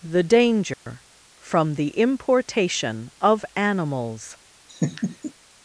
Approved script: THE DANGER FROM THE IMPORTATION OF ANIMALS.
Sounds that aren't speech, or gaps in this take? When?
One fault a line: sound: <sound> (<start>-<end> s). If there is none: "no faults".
sound: dropout (0.7-0.9 s)
sound: laugh (4.7-5.3 s)